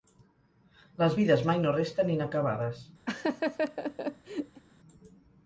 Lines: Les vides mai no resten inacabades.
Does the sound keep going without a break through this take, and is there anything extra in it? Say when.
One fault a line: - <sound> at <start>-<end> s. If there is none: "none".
- laugh at 3.1-4.6 s